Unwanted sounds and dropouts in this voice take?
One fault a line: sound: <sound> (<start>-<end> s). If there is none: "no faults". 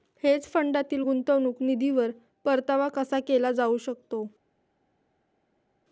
no faults